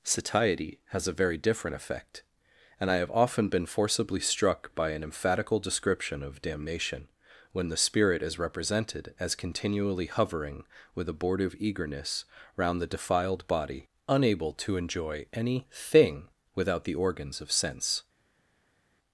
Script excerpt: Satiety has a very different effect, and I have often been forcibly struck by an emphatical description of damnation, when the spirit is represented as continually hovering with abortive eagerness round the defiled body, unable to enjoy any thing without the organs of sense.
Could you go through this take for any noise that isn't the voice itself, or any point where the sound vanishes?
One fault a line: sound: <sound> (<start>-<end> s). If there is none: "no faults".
no faults